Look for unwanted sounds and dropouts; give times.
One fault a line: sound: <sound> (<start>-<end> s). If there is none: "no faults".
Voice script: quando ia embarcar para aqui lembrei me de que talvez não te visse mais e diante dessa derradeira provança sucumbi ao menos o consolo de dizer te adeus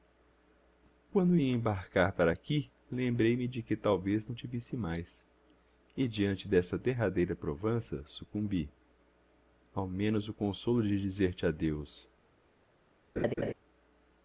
sound: laugh (13.2-13.5 s)